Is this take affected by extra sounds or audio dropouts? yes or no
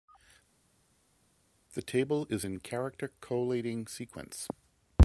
no